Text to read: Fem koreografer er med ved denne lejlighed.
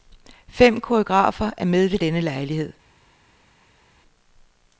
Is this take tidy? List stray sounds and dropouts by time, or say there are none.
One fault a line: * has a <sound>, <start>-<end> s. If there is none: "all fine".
all fine